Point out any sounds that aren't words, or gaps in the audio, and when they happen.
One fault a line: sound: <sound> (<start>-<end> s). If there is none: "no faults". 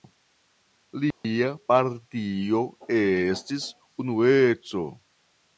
sound: dropout (1.1-1.2 s)